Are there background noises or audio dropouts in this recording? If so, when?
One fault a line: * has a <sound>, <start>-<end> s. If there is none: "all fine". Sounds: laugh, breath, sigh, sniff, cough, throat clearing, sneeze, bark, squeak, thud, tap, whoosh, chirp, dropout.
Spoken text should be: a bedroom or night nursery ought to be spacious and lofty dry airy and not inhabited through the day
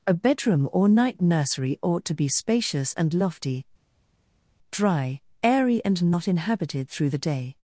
all fine